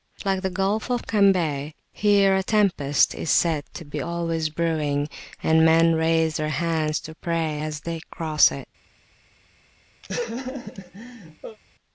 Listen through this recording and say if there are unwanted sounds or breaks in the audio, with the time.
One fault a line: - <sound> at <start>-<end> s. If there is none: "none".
- laugh at 10.0-11.6 s